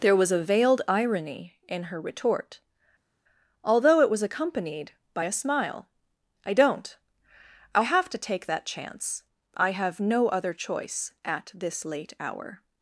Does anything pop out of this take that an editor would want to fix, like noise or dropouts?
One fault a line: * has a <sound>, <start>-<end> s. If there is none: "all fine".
all fine